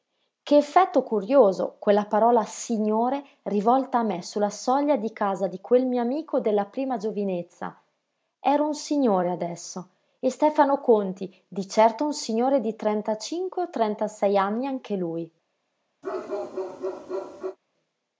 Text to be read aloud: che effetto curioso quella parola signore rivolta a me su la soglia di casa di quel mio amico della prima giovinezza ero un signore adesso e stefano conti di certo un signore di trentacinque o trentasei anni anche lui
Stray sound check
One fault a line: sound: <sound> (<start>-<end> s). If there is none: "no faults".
sound: bark (16.0-17.6 s)